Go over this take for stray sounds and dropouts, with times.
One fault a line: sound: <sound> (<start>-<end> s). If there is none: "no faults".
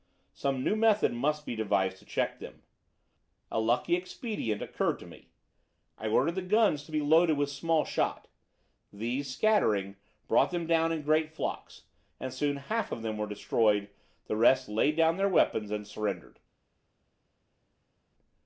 no faults